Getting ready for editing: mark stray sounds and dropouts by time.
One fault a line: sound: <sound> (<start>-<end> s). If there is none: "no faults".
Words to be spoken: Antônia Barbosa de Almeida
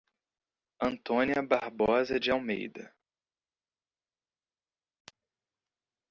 no faults